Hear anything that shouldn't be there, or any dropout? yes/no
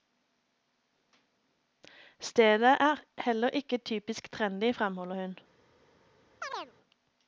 yes